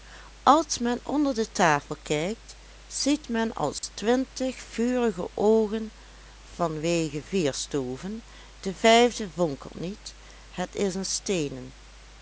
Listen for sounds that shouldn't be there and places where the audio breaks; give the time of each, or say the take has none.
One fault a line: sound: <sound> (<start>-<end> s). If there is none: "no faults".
sound: dropout (3.8-3.8 s)